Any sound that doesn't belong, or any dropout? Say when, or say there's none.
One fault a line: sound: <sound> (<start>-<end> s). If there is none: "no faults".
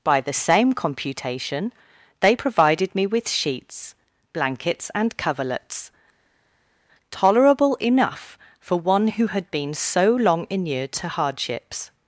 no faults